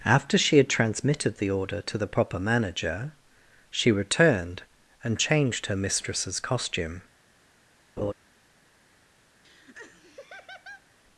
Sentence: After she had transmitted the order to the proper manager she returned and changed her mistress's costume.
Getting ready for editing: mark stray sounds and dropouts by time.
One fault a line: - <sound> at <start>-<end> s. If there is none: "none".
- laugh at 8.0-8.1 s
- laugh at 9.4-10.9 s